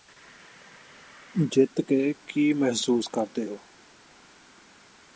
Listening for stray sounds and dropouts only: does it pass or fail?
pass